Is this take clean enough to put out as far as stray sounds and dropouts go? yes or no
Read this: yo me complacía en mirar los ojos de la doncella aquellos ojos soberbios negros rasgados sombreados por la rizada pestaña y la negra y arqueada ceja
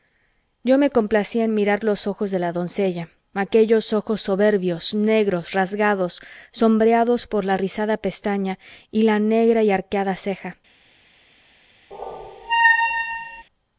no